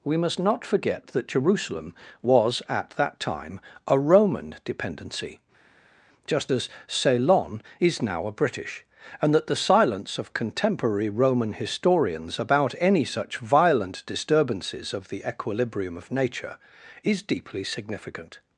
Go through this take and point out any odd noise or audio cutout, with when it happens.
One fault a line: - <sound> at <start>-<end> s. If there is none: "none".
none